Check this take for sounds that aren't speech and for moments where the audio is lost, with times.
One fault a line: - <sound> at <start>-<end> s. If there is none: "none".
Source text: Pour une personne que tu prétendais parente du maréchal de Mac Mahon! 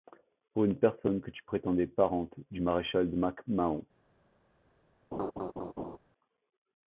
- laugh at 5.1-6.0 s